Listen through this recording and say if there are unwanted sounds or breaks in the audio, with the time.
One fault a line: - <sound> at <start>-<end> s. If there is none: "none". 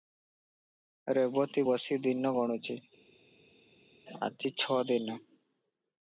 none